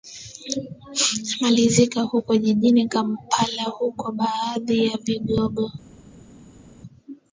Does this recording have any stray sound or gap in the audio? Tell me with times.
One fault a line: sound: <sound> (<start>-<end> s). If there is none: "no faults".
no faults